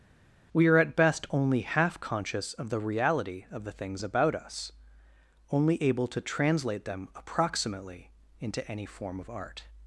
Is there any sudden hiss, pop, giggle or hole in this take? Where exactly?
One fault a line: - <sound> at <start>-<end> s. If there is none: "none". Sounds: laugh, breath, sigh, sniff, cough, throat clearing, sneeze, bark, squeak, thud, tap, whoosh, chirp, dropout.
none